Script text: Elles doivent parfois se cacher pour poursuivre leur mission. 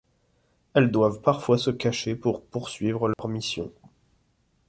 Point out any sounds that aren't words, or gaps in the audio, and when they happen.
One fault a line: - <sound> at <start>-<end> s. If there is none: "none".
- dropout at 3.1-3.2 s